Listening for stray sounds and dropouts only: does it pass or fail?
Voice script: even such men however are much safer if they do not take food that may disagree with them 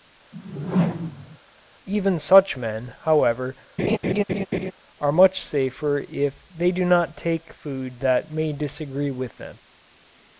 fail